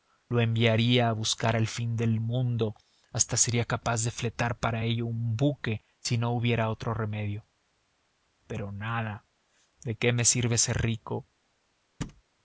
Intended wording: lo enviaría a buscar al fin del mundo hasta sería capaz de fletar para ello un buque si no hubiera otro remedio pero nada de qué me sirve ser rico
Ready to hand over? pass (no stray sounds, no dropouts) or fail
fail